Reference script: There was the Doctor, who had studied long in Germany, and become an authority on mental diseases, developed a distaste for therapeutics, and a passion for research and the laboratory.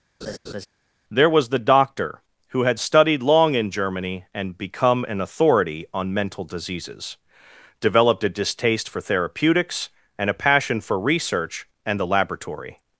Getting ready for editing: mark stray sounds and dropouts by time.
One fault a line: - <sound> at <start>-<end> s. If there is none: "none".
- laugh at 0.2-0.7 s